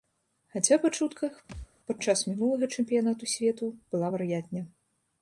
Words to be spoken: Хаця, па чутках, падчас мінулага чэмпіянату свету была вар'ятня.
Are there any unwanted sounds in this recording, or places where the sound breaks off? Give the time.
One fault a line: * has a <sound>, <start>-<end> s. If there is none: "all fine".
* has a thud, 1.5-1.7 s